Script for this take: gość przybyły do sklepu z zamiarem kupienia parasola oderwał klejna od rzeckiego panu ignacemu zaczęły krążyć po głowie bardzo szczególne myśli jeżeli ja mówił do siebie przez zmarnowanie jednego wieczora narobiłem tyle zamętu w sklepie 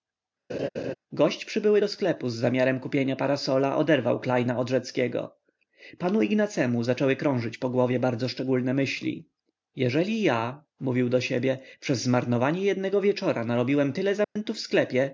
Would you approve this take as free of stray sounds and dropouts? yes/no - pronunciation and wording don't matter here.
no